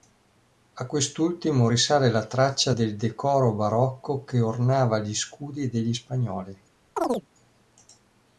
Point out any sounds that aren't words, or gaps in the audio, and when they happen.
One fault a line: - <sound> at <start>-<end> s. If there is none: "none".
- chirp at 7.0-7.3 s